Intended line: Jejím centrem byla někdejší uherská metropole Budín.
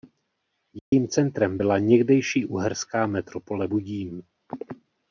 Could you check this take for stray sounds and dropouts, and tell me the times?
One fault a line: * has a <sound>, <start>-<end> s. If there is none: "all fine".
* has a dropout, 0.8-0.9 s